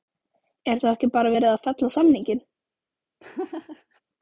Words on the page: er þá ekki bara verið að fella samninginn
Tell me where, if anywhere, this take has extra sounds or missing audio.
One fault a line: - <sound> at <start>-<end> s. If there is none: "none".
- laugh at 3.2-4.0 s